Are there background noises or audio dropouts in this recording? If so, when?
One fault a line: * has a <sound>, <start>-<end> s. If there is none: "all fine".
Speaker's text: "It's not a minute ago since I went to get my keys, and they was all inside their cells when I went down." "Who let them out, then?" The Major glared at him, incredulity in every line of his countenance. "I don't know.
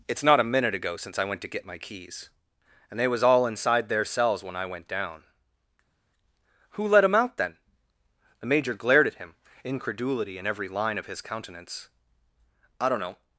all fine